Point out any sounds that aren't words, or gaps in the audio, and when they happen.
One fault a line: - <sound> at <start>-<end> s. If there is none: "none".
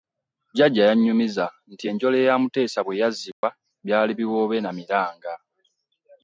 - dropout at 3.3-3.4 s